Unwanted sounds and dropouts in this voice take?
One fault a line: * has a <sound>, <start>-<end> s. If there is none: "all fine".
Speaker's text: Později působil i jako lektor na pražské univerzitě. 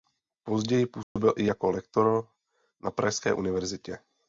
* has a dropout, 1.0-1.2 s